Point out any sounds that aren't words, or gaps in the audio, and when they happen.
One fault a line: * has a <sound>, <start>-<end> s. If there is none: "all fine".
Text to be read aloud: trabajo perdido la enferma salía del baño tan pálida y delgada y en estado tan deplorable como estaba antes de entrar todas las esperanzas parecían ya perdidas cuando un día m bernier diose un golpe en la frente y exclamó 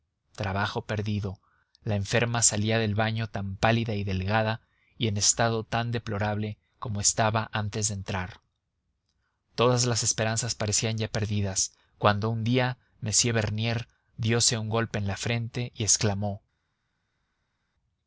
all fine